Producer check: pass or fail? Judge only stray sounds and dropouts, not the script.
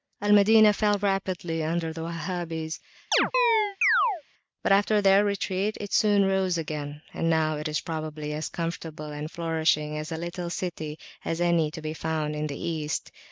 fail